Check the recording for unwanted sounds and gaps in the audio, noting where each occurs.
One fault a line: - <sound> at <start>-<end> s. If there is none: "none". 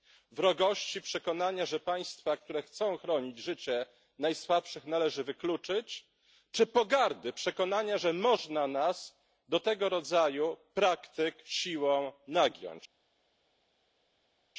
none